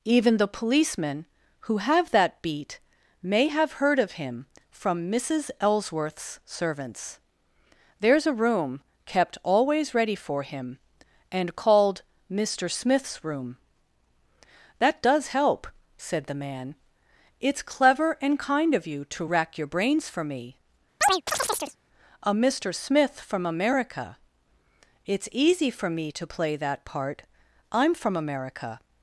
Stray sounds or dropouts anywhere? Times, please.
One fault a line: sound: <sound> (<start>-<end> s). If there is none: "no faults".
sound: chirp (21.0-21.8 s)